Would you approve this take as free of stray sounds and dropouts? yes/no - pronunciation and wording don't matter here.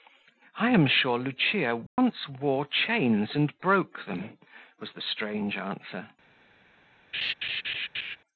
no